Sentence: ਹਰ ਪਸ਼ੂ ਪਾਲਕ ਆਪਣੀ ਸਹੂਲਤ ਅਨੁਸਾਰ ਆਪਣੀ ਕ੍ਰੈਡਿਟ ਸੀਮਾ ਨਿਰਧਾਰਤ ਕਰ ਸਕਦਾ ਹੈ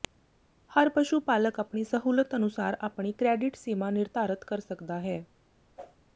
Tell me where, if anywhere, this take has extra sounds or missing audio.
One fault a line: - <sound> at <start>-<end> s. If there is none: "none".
- whoosh at 5.8-6.0 s